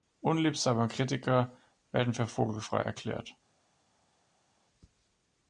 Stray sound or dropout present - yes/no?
no